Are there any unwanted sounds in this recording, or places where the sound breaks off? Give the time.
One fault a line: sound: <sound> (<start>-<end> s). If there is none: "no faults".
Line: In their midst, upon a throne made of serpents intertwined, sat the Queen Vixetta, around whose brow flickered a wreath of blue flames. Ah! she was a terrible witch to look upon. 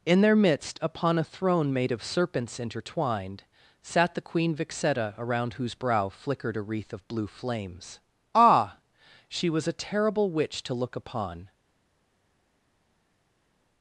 no faults